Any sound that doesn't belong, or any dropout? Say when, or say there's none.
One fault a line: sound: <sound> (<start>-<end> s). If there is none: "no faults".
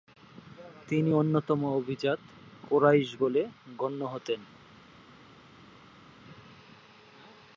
no faults